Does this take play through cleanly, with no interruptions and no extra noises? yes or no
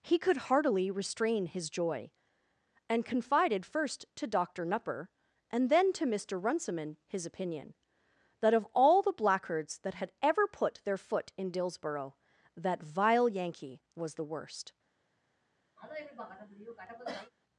no